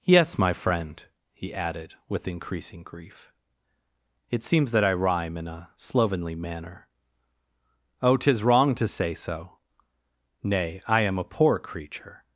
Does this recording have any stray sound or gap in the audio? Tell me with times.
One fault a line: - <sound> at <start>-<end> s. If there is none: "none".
none